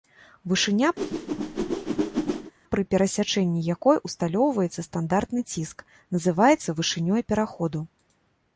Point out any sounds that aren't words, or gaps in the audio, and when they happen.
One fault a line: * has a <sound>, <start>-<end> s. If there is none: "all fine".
* has a whoosh, 1.0-2.5 s